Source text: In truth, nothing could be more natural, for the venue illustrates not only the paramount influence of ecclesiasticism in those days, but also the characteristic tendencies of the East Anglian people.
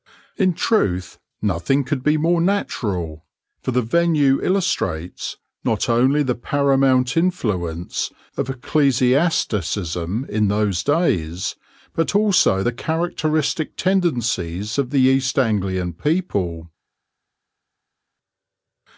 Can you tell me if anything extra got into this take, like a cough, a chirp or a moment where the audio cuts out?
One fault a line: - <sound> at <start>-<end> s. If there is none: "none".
none